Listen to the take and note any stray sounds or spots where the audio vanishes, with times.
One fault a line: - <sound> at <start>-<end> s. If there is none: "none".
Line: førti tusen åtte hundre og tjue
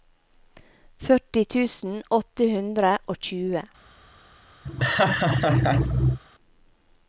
- laugh at 4.6-6.2 s